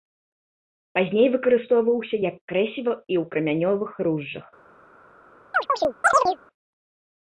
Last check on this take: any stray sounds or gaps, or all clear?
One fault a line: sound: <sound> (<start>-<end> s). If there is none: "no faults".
sound: chirp (5.5-6.4 s)